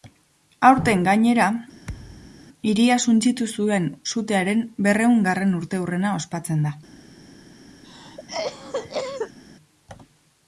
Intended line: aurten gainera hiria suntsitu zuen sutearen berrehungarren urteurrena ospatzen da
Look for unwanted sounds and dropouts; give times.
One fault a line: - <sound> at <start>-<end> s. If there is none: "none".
- thud at 1.8-2.4 s
- cough at 7.8-9.4 s